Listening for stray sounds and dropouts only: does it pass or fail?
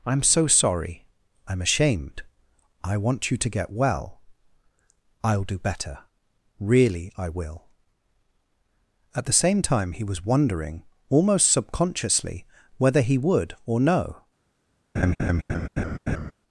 fail